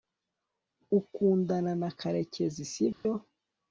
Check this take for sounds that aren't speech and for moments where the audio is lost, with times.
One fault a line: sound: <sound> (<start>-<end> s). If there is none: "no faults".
sound: dropout (2.9-3.1 s)